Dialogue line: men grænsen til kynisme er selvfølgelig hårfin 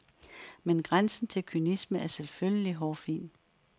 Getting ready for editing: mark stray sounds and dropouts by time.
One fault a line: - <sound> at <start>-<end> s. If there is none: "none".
none